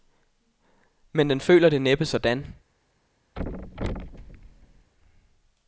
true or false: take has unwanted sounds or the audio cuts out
true